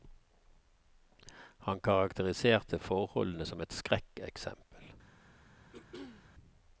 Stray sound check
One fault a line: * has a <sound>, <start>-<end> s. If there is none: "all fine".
* has a throat clearing, 5.7-6.3 s